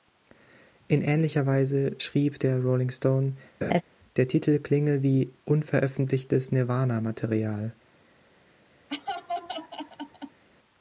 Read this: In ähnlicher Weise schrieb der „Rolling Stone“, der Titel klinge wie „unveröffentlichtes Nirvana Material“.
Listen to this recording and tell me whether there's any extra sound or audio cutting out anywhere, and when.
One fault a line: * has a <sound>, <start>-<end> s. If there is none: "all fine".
* has a laugh, 3.6-3.8 s
* has a laugh, 8.9-10.4 s